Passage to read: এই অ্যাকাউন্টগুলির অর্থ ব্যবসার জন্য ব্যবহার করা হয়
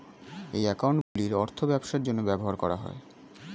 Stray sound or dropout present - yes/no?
yes